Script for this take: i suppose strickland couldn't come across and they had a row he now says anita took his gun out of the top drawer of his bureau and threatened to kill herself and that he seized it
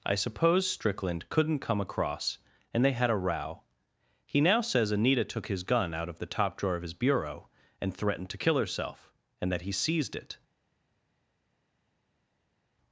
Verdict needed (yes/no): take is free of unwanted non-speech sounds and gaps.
yes